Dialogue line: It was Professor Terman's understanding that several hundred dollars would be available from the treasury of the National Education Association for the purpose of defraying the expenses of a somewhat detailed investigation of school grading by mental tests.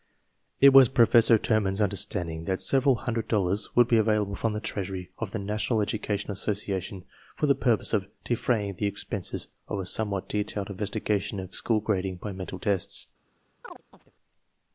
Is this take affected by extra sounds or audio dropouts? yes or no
yes